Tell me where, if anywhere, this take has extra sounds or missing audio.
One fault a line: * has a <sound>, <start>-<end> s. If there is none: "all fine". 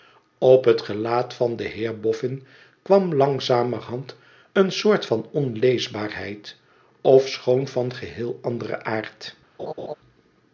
* has a laugh, 9.6-9.9 s